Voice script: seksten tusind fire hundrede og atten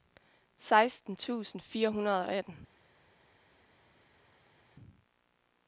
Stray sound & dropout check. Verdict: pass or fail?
pass